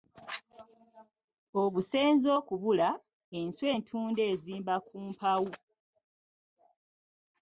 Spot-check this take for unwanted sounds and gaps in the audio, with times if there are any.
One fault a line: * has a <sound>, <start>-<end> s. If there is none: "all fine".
all fine